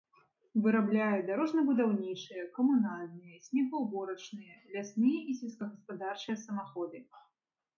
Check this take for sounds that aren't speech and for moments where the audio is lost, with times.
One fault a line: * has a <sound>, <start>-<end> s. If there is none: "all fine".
all fine